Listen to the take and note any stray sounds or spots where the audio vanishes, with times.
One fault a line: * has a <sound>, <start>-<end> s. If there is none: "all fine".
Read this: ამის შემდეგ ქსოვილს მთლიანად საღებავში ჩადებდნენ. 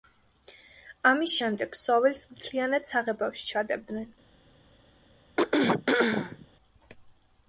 * has a throat clearing, 5.4-6.5 s